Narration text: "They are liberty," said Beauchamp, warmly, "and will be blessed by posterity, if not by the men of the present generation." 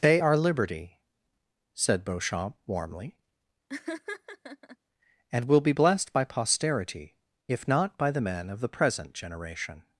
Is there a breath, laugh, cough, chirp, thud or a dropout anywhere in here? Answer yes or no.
yes